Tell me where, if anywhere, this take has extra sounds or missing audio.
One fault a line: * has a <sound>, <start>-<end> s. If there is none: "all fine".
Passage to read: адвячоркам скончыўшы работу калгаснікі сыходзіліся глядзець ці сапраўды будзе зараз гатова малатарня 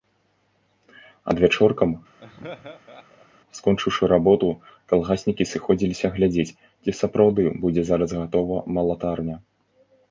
* has a laugh, 2.2-3.3 s